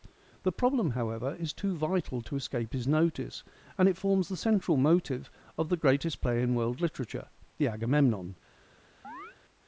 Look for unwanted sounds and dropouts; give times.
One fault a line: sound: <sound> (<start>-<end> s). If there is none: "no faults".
sound: chirp (9.0-9.4 s)